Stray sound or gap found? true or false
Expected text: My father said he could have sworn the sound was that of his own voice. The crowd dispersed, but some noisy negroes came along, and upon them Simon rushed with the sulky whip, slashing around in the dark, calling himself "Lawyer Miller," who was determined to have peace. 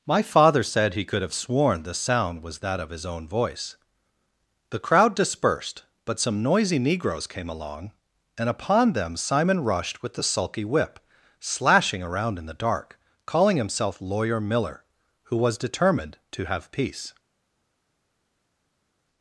false